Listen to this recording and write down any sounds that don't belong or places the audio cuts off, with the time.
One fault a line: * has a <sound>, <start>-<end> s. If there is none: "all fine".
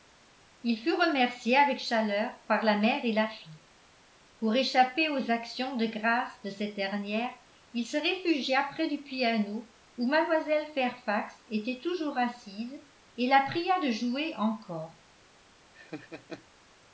* has a laugh, 15.7-16.5 s